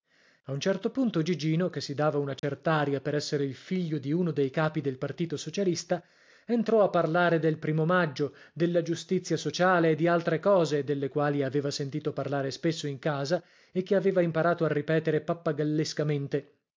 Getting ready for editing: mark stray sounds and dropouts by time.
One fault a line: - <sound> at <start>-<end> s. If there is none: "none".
- dropout at 2.4-2.4 s